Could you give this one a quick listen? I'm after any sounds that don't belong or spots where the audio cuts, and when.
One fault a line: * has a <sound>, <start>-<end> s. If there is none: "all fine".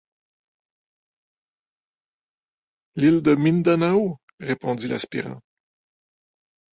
all fine